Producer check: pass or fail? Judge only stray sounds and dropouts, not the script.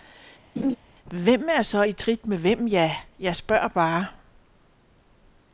fail